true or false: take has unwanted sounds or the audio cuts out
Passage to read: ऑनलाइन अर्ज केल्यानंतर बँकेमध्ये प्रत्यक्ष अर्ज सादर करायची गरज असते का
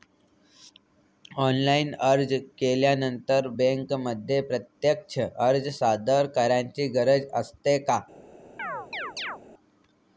true